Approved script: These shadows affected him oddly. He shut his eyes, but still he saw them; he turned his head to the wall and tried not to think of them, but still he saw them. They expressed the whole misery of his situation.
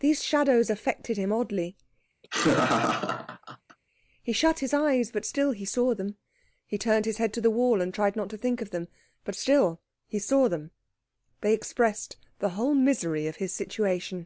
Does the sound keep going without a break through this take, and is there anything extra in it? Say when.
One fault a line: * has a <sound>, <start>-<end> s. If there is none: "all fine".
* has a laugh, 2.2-3.8 s